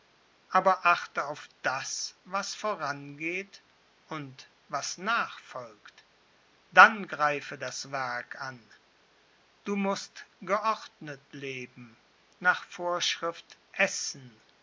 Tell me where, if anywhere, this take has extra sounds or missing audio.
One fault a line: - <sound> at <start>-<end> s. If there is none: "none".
none